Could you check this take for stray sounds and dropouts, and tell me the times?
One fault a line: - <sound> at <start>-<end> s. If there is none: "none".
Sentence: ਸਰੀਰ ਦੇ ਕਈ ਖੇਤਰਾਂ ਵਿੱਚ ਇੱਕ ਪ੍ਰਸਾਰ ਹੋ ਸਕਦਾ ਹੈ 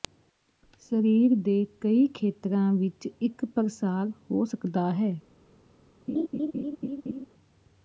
- laugh at 6.1-7.3 s